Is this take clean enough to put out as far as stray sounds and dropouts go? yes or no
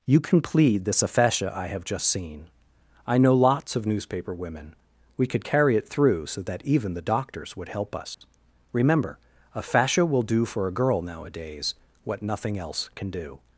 no